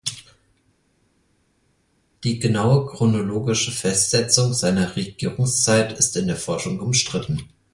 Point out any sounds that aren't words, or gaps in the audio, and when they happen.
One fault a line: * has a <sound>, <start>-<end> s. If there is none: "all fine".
all fine